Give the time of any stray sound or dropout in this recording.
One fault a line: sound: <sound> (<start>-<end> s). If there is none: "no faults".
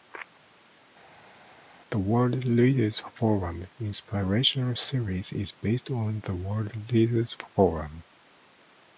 no faults